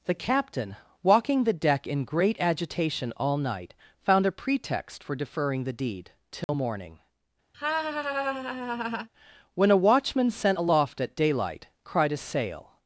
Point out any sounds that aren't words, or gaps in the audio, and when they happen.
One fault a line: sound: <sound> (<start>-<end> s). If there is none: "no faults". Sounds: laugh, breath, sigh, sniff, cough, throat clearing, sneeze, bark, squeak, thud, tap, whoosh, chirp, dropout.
sound: dropout (6.4-6.5 s)
sound: laugh (7.5-9.1 s)